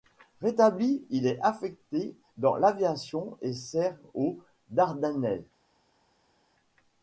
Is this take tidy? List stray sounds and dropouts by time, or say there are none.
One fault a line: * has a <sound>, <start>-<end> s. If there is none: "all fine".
all fine